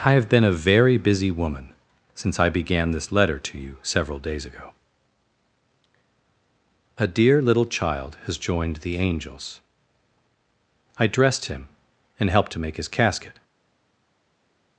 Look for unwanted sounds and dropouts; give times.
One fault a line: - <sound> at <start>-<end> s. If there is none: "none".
none